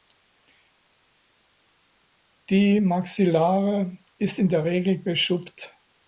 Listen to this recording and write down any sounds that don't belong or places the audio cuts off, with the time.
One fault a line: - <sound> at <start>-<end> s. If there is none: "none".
none